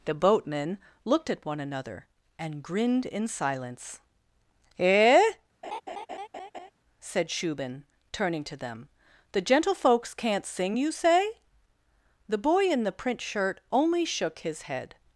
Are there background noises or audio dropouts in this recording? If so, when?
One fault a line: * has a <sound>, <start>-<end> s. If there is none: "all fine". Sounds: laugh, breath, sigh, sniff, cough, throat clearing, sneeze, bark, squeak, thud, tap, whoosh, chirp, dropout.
* has a laugh, 5.6-6.7 s